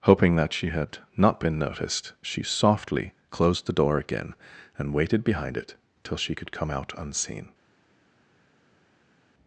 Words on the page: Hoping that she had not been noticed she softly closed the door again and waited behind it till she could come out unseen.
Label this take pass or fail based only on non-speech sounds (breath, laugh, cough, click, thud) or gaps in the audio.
pass